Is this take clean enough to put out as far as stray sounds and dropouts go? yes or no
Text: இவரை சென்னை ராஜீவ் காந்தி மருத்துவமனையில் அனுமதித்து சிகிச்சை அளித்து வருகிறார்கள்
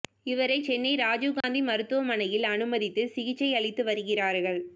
no